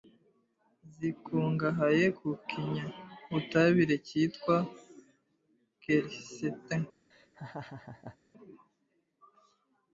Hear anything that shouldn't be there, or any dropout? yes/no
yes